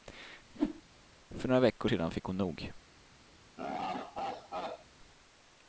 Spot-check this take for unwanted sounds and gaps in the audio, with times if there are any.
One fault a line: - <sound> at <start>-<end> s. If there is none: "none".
- whoosh at 0.5-0.8 s
- laugh at 3.6-4.9 s